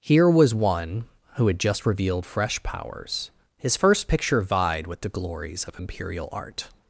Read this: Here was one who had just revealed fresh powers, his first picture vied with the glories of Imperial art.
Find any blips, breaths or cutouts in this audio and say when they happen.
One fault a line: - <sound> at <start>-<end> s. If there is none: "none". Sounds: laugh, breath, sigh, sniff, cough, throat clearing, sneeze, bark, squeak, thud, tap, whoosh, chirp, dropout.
none